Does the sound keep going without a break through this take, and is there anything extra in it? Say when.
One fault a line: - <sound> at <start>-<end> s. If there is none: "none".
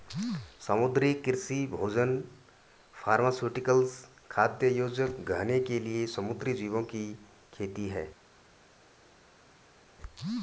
none